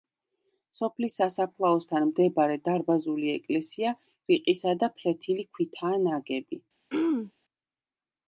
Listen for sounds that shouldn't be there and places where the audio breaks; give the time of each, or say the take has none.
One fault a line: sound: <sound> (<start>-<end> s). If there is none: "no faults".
sound: throat clearing (6.9-7.3 s)